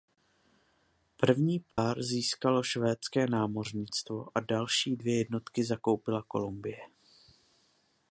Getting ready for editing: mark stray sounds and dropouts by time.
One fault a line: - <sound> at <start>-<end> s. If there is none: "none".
- dropout at 1.7-1.8 s